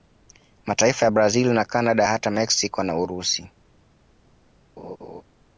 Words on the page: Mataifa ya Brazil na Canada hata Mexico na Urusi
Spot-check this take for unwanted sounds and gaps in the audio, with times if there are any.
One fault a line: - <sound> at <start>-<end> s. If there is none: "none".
- laugh at 4.8-5.2 s